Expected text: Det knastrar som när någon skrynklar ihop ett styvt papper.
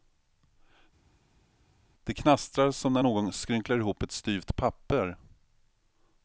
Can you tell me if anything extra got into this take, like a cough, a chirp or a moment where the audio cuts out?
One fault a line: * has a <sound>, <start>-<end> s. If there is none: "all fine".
all fine